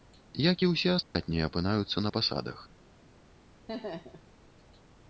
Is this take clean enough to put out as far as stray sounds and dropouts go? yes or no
no